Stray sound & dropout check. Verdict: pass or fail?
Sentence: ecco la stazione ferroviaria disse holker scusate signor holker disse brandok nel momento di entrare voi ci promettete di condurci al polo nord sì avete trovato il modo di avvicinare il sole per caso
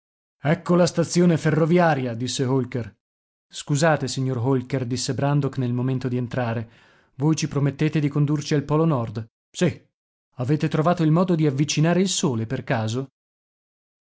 pass